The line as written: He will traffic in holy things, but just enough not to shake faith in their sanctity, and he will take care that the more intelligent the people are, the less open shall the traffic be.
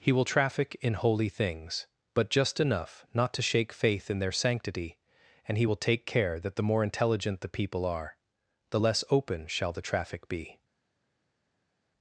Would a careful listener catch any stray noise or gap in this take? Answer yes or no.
no